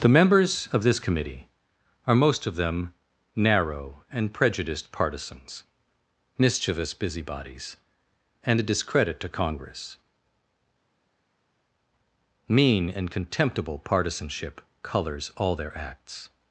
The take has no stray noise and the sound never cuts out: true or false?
true